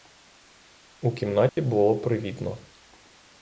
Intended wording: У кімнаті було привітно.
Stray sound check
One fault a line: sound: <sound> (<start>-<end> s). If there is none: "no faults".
sound: dropout (1.5-1.6 s)